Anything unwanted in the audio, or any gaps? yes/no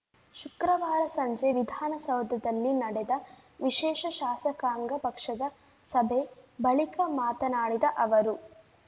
no